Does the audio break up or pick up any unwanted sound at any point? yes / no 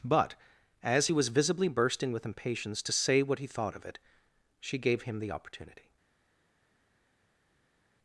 no